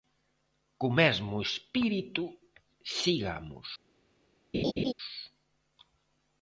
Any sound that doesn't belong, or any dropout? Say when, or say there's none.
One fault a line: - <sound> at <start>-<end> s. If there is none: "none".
- laugh at 4.5-4.9 s